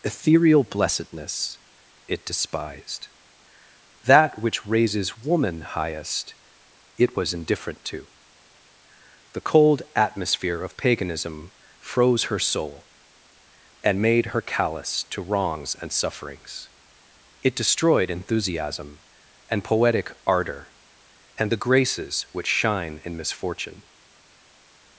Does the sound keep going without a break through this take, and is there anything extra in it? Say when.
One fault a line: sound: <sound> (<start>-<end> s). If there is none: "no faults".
no faults